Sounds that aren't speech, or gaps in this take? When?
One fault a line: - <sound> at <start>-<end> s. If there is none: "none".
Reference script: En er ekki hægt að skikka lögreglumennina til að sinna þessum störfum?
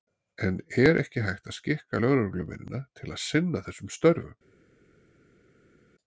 none